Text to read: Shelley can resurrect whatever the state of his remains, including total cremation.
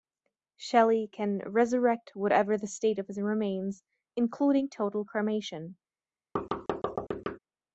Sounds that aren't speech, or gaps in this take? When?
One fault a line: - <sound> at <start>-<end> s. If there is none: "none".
- thud at 6.4-7.4 s